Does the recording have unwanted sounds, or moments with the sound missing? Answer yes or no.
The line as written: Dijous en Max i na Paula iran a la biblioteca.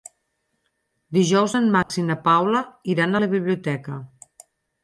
yes